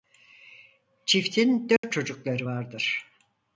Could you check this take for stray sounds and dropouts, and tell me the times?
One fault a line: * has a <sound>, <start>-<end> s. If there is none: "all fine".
* has a dropout, 1.8-1.8 s